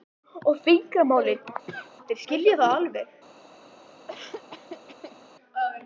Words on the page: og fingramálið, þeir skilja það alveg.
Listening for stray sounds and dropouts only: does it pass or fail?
fail